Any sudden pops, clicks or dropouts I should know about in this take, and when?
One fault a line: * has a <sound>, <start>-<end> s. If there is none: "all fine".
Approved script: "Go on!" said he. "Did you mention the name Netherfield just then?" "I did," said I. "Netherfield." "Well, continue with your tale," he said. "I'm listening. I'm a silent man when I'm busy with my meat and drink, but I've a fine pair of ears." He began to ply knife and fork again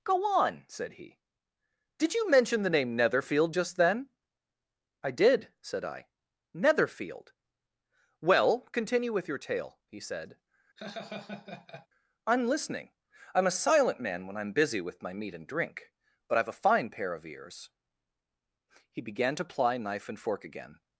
* has a laugh, 10.8-11.9 s